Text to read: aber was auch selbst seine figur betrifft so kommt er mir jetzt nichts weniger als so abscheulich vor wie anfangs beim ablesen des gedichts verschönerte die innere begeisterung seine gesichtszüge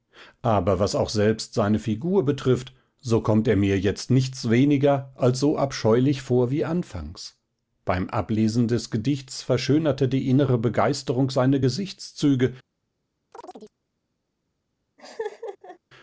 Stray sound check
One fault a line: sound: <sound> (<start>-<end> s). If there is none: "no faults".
sound: chirp (13.3-13.8 s)
sound: laugh (15.0-15.8 s)